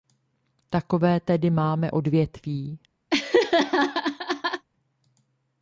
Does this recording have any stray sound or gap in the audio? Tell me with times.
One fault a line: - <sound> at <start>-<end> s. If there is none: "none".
- laugh at 3.1-4.7 s